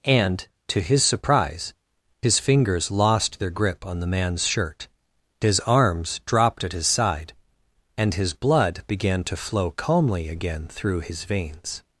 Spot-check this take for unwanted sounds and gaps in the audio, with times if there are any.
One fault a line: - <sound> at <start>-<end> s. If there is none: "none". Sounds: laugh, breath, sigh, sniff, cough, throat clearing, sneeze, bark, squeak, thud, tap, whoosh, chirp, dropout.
none